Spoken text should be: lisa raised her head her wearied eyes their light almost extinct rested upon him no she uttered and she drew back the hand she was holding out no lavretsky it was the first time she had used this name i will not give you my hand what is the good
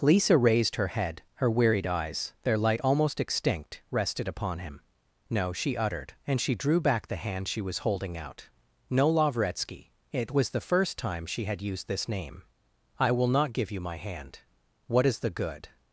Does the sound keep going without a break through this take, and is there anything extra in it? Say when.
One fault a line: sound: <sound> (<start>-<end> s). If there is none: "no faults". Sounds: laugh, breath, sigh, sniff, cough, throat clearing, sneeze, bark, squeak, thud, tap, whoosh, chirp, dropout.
no faults